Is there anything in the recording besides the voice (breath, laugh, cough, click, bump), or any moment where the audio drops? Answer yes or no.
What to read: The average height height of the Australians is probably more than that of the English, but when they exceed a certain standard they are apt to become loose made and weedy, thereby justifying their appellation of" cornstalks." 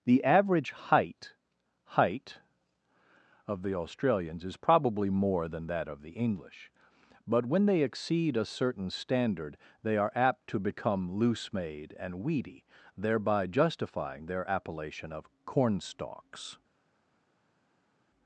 no